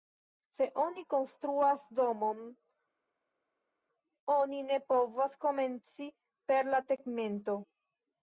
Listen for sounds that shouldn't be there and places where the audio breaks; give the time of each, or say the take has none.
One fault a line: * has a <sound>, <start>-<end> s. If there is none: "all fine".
all fine